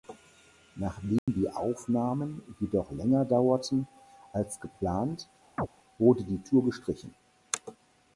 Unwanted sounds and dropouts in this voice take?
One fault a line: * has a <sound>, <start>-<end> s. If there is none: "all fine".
* has a dropout, 1.2-1.3 s
* has a chirp, 5.6-5.7 s